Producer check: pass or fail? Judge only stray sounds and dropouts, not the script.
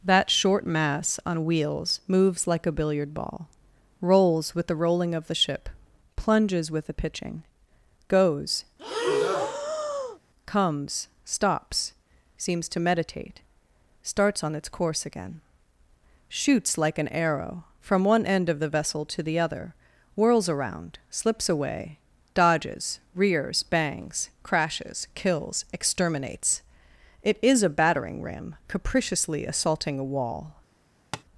fail